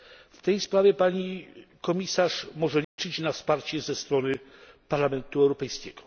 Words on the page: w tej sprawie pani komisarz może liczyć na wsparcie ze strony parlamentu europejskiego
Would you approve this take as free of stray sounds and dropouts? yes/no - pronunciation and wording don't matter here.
no